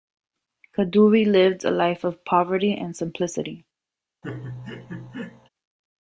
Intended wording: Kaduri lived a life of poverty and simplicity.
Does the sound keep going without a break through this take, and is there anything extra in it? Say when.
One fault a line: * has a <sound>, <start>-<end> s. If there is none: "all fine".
* has a laugh, 4.2-5.5 s